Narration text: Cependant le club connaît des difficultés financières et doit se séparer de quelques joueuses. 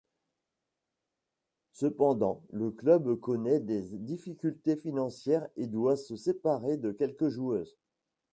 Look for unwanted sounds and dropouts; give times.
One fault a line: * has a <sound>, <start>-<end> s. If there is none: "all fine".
all fine